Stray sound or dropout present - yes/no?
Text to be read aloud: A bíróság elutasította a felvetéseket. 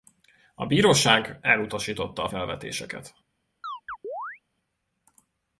yes